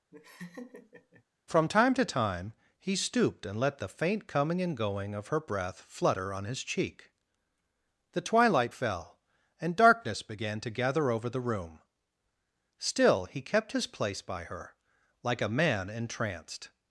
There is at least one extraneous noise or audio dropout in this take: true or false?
true